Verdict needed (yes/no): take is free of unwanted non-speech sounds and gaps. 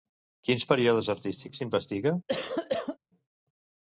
no